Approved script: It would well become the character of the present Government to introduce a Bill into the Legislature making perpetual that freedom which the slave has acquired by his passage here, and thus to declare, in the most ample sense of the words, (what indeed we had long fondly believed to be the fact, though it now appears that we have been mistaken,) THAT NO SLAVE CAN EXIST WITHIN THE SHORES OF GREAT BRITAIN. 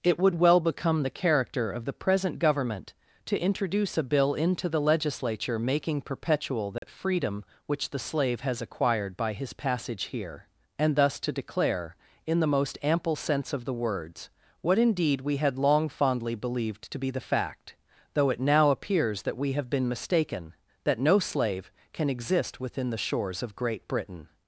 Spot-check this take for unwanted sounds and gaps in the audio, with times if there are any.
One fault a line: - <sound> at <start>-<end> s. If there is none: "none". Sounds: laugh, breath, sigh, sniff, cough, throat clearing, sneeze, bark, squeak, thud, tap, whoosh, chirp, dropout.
- dropout at 6.8-6.8 s